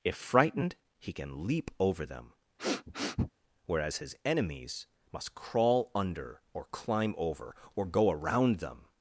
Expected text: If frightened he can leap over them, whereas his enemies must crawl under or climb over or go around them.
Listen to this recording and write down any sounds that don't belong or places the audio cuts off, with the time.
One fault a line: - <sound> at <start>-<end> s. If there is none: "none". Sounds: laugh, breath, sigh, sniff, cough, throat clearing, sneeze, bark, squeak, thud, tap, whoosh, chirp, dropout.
- sniff at 2.6-3.3 s